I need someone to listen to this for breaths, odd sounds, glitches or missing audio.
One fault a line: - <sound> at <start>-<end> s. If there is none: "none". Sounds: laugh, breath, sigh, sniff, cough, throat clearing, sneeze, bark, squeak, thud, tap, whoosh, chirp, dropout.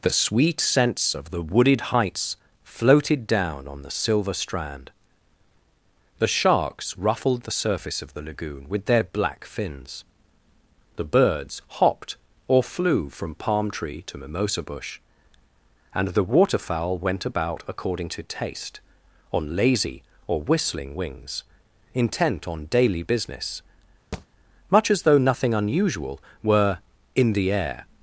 - thud at 24.1-24.3 s